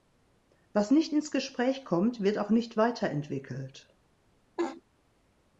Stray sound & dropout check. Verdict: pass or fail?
fail